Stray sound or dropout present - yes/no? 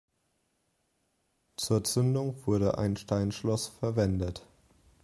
no